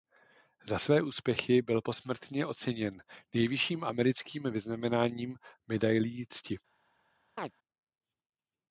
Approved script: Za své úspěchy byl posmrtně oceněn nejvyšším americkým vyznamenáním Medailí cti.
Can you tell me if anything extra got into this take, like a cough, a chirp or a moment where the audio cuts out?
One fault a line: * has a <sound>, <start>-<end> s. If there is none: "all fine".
* has a chirp, 7.4-7.5 s